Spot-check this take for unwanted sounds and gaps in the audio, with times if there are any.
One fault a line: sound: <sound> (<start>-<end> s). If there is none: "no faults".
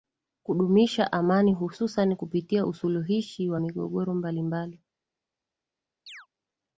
sound: chirp (6.1-6.3 s)